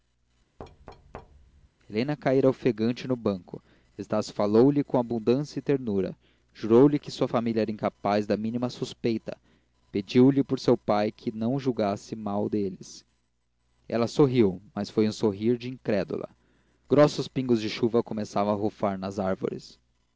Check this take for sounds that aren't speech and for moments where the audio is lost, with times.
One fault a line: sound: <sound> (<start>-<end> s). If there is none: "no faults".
sound: thud (0.6-1.7 s)